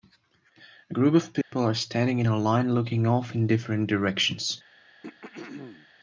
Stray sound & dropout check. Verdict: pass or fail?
fail